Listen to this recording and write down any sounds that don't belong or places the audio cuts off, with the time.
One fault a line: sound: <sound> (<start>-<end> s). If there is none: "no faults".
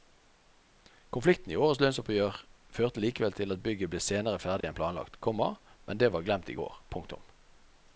sound: dropout (4.6-4.6 s)